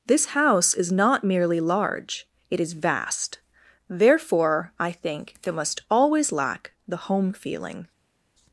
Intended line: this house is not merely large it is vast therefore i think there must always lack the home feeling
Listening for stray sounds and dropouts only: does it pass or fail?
pass